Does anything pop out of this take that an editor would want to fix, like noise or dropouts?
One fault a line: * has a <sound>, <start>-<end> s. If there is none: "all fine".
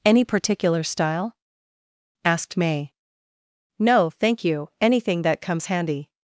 all fine